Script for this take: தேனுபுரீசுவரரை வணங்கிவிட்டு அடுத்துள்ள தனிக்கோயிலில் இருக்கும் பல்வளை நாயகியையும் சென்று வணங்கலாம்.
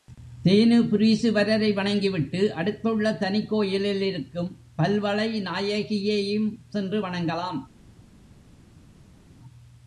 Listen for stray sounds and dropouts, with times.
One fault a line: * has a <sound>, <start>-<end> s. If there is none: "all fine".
all fine